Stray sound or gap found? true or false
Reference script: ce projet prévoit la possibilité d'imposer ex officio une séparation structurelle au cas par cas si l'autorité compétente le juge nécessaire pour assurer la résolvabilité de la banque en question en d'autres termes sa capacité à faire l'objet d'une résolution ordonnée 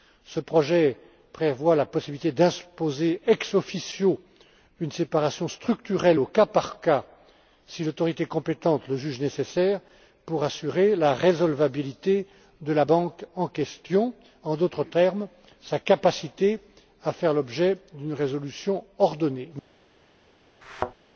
true